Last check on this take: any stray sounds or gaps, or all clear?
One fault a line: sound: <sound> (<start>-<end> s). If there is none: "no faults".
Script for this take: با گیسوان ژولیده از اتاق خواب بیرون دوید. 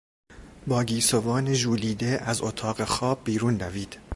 no faults